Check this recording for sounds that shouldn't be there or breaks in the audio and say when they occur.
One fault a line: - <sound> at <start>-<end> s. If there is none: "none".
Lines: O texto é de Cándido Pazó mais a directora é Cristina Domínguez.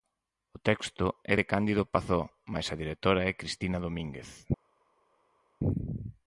none